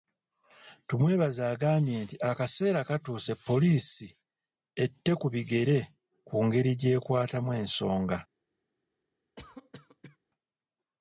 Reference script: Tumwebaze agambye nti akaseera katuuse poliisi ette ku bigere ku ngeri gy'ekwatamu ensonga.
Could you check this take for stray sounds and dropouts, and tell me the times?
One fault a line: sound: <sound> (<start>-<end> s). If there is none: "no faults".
sound: cough (9.4-10.2 s)